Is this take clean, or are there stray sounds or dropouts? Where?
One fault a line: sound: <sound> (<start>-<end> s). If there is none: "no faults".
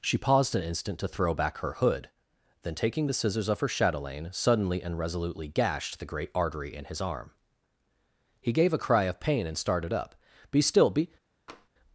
sound: tap (11.5-11.7 s)